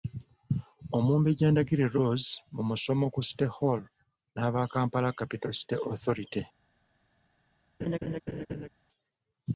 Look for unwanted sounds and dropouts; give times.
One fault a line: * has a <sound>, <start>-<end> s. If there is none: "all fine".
* has a laugh, 7.8-8.7 s